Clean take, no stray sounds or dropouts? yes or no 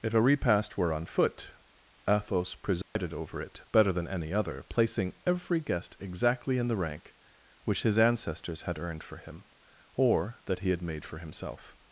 no